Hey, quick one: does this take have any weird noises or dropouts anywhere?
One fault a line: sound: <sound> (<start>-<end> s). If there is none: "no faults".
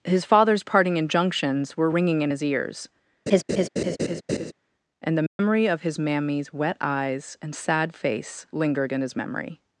sound: laugh (3.3-4.5 s)
sound: dropout (5.3-5.4 s)